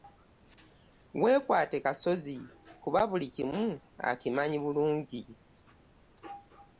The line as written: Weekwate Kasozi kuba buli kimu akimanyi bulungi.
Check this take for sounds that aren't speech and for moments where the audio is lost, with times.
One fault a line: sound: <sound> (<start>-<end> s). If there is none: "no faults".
no faults